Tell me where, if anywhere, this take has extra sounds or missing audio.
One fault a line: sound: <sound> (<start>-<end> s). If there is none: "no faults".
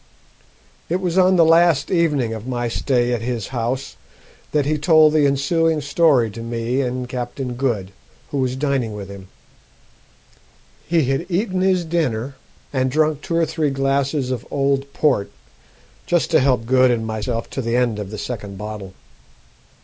no faults